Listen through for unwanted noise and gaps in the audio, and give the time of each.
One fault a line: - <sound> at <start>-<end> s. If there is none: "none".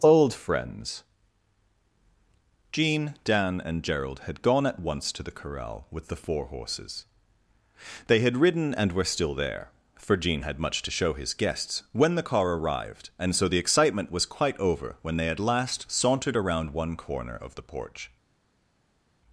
none